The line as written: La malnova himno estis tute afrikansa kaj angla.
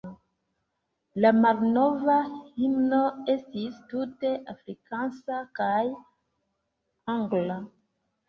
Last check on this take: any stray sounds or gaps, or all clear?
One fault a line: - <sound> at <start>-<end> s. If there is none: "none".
none